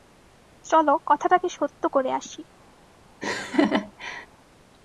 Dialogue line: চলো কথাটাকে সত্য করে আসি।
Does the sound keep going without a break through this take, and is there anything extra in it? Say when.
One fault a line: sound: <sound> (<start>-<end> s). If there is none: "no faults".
sound: laugh (3.2-4.3 s)